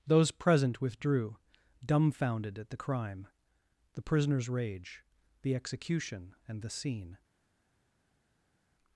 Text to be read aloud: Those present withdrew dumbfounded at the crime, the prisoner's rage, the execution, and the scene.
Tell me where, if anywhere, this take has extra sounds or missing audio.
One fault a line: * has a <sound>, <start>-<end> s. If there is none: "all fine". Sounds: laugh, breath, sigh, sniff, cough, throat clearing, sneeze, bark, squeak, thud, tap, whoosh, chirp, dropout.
all fine